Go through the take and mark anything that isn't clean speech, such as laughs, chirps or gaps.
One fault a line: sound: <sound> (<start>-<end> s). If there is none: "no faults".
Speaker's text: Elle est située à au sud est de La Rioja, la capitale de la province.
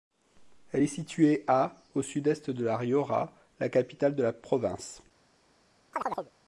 sound: chirp (5.9-6.3 s)